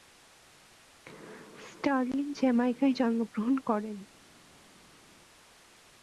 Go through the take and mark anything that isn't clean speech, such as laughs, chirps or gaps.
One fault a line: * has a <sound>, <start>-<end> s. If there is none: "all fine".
all fine